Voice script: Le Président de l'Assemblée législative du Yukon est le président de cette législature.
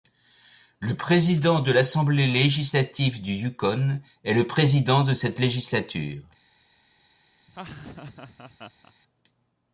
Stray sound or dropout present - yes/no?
yes